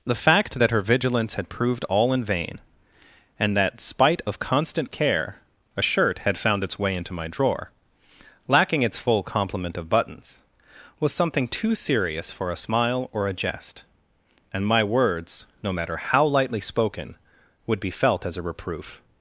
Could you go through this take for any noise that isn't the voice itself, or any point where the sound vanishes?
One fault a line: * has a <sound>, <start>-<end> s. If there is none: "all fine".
all fine